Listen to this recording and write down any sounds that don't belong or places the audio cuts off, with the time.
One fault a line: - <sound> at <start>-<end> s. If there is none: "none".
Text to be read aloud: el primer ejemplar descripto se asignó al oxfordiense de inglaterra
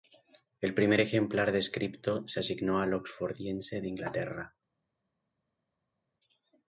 none